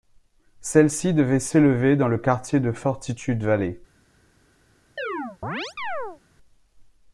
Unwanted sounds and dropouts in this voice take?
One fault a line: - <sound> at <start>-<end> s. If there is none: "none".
- chirp at 5.0-6.2 s